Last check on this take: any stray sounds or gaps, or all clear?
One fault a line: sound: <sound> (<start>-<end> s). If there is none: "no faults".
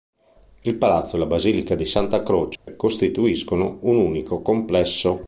sound: dropout (2.6-2.7 s)